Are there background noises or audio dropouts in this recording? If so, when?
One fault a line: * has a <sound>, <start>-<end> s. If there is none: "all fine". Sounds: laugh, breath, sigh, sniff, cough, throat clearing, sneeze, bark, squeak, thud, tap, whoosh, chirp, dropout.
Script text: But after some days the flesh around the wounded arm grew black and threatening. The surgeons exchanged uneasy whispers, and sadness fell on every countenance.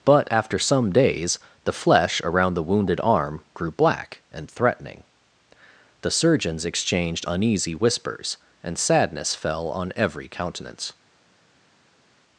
all fine